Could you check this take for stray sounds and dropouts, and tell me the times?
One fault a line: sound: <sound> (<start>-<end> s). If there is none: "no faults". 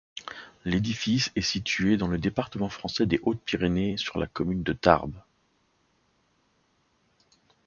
no faults